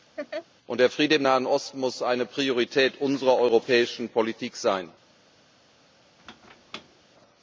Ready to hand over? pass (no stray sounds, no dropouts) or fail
fail